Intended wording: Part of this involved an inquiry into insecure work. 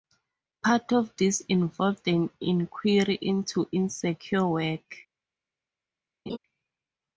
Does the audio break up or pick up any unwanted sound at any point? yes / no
yes